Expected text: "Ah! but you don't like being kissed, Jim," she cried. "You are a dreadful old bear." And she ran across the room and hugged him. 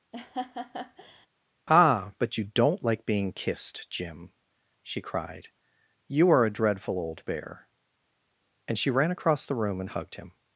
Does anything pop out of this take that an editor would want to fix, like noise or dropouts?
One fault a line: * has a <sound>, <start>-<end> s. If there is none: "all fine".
* has a laugh, 0.1-1.3 s